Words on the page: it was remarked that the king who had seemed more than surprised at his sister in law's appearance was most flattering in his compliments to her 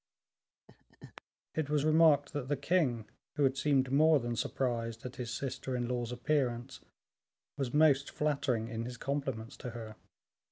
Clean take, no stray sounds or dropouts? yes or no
no